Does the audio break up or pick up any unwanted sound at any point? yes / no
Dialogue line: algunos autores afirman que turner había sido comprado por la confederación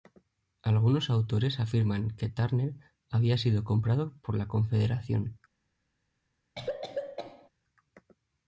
yes